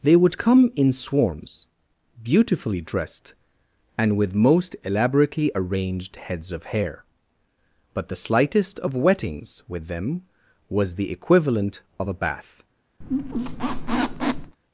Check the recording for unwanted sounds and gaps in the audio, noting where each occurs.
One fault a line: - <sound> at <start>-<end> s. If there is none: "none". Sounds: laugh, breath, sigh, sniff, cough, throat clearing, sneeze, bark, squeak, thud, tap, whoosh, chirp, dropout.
- squeak at 13.0-14.6 s